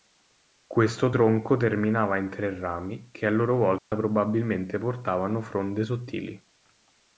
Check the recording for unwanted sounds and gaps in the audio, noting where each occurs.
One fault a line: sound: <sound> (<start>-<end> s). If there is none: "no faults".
sound: dropout (3.8-3.9 s)